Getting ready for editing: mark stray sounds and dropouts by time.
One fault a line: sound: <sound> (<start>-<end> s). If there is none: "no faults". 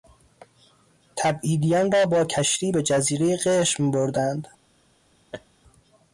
sound: laugh (5.3-5.5 s)